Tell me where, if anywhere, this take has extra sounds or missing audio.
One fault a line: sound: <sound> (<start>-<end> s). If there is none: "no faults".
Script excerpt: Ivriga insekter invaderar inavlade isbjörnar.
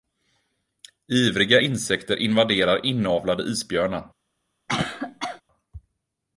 sound: cough (4.7-5.4 s)